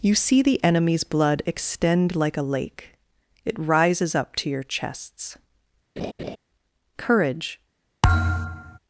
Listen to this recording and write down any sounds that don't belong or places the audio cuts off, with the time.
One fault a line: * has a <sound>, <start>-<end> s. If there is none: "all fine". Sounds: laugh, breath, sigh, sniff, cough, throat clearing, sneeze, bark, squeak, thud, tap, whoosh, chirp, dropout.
* has a laugh, 6.0-6.4 s
* has a thud, 8.0-8.8 s